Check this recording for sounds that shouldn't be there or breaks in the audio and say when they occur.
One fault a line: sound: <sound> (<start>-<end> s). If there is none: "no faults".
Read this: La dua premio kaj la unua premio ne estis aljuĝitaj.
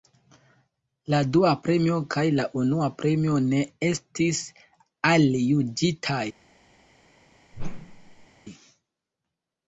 sound: whoosh (7.5-8.3 s)